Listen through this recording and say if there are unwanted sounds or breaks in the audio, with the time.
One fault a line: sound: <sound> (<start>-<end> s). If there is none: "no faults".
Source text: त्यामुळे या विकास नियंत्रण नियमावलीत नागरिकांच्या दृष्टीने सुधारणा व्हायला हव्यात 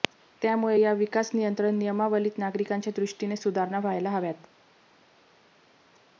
no faults